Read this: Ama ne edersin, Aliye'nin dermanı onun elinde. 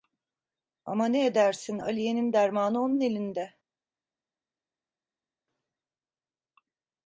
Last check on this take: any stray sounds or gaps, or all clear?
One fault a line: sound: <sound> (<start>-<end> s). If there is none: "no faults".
no faults